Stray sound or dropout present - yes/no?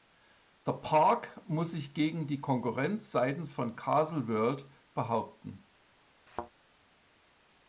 yes